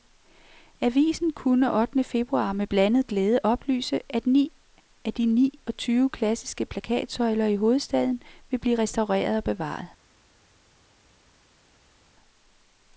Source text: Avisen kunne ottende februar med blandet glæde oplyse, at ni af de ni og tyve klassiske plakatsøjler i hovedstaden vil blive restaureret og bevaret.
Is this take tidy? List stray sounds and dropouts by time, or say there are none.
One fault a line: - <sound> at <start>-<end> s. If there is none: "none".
none